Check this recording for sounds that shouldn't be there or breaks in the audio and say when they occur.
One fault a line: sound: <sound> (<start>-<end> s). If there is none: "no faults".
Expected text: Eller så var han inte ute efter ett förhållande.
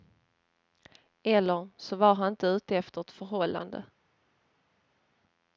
no faults